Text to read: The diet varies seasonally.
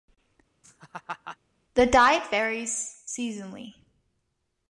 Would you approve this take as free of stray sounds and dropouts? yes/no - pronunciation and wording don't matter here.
no